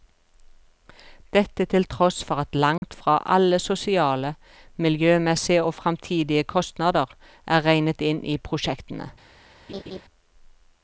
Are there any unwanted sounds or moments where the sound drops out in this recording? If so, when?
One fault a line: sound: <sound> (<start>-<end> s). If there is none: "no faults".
sound: dropout (2.8-2.8 s)
sound: laugh (9.7-10.0 s)